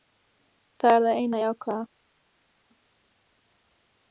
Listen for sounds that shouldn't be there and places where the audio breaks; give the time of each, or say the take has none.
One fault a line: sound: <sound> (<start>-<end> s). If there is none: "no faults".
no faults